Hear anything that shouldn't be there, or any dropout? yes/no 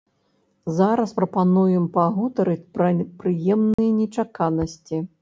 yes